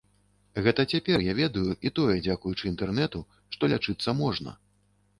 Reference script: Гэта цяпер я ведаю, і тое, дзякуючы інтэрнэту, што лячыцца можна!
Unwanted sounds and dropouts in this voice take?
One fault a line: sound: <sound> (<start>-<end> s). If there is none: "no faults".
no faults